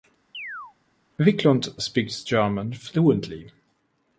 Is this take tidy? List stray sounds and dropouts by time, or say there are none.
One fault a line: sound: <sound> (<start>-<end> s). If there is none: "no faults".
sound: chirp (0.3-0.7 s)